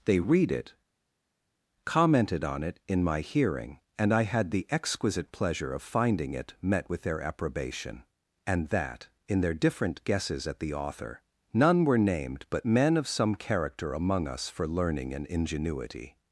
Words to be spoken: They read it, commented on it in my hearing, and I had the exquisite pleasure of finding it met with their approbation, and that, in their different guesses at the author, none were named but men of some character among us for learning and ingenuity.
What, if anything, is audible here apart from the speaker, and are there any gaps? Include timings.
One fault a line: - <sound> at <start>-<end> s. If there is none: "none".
none